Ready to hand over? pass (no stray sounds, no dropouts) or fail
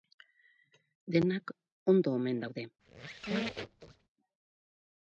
fail